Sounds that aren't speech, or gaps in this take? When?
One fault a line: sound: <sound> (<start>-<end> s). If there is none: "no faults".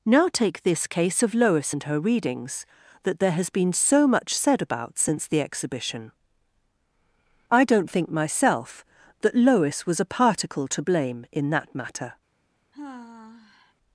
sound: sigh (12.7-13.7 s)